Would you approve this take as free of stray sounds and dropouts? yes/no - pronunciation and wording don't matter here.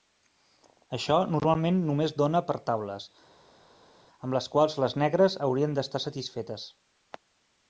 yes